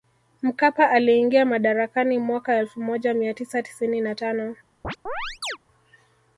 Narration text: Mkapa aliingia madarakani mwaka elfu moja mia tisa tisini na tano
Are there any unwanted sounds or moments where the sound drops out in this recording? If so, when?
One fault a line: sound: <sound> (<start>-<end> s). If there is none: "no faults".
sound: chirp (4.8-5.6 s)